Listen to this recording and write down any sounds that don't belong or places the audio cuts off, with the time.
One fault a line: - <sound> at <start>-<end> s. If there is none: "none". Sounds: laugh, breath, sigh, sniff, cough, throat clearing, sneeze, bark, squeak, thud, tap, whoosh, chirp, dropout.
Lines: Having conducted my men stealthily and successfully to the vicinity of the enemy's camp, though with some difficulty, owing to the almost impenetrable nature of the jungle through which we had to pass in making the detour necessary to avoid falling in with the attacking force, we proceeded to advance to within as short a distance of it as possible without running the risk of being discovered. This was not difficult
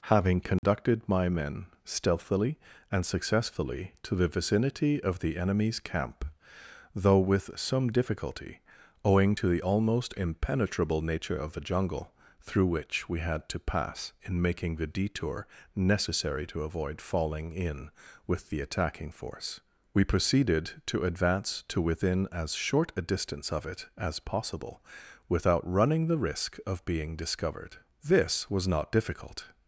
- dropout at 0.6-0.6 s